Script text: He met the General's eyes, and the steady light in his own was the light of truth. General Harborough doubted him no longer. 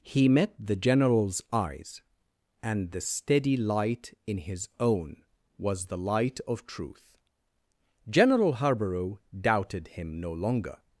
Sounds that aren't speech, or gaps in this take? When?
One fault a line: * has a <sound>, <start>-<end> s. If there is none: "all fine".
all fine